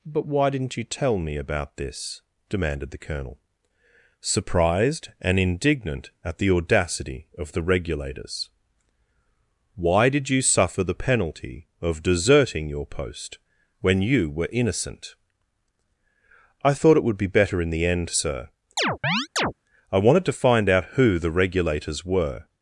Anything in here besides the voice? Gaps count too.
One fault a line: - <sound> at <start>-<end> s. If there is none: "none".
- chirp at 18.8-19.5 s